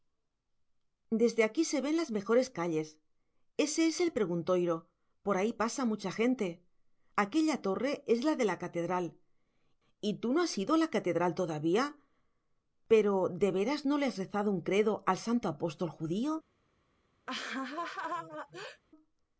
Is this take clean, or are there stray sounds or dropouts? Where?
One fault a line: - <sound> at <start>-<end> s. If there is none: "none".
- laugh at 17.3-18.8 s